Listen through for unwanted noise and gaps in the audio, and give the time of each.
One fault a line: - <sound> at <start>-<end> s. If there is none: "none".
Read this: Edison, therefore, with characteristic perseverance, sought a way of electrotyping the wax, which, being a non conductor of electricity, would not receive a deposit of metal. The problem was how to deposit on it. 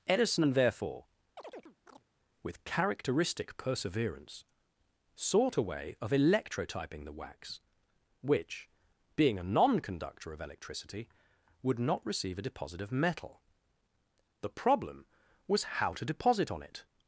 - chirp at 1.4-2.0 s